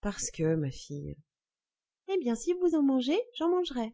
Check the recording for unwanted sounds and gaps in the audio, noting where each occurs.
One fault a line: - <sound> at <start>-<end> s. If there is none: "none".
none